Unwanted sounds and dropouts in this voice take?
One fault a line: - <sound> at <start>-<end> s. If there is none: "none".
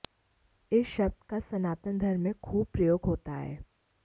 none